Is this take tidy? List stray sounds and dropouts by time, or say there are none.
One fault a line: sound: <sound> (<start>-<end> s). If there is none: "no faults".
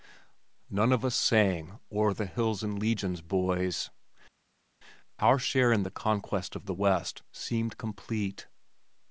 no faults